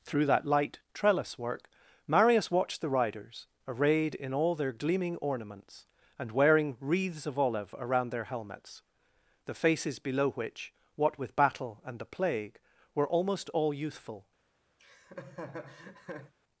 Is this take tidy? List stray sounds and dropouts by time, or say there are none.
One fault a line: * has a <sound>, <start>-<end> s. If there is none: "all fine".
* has a laugh, 14.8-16.3 s